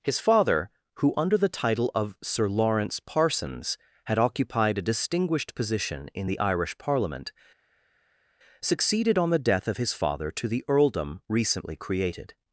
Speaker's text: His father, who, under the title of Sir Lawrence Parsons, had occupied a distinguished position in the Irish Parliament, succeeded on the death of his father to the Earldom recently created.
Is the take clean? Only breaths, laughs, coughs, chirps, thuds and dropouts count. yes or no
yes